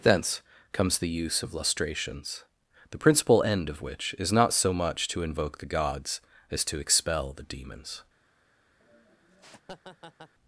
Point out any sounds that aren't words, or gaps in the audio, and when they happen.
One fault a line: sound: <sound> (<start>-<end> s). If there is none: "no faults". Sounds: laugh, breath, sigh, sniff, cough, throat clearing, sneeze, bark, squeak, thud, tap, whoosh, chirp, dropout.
sound: laugh (8.8-10.3 s)